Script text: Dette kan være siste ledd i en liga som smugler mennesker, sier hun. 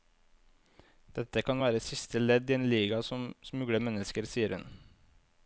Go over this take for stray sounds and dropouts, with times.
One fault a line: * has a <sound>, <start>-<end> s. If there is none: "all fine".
all fine